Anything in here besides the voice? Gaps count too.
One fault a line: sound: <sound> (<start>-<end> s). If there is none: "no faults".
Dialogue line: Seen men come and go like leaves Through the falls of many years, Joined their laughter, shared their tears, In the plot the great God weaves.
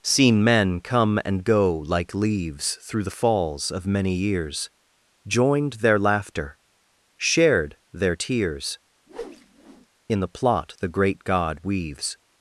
sound: whoosh (9.1-9.9 s)